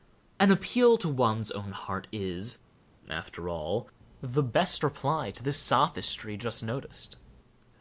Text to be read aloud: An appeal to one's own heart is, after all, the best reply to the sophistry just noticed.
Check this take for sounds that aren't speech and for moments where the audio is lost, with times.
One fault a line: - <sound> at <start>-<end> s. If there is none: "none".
none